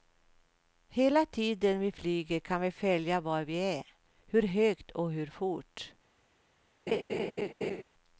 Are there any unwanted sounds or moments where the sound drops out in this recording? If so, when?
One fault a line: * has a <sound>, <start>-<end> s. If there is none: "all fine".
* has a laugh, 6.9-7.8 s